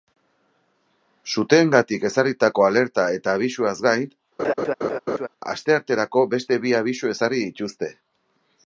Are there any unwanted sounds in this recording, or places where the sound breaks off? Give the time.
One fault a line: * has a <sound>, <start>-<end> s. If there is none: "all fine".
* has a laugh, 4.4-5.3 s